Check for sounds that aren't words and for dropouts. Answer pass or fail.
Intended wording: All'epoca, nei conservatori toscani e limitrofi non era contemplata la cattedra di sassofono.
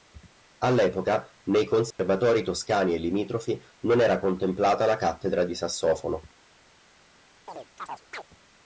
fail